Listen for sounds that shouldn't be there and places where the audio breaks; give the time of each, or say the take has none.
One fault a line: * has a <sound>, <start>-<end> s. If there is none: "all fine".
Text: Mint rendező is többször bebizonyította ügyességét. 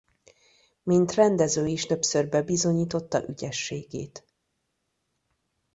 all fine